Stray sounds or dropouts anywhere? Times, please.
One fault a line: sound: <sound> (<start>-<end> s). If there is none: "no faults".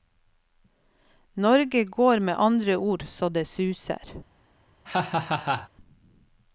sound: laugh (4.8-5.7 s)